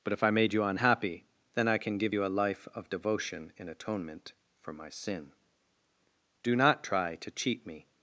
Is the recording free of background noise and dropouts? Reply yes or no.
yes